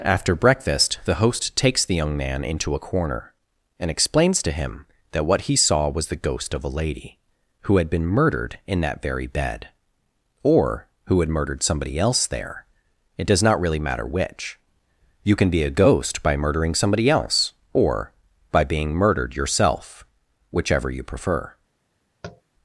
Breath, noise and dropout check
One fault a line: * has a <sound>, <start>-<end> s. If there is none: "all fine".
* has a tap, 22.2-22.4 s